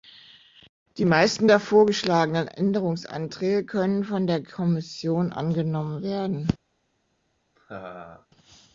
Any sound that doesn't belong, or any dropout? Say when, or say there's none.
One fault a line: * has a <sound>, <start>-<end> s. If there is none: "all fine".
* has a laugh, 7.6-8.3 s